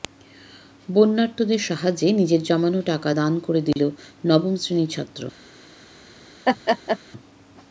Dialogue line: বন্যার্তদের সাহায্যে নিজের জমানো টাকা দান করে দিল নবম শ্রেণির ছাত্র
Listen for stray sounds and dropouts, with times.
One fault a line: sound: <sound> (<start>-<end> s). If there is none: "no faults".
sound: dropout (3.7-3.8 s)
sound: laugh (6.4-7.0 s)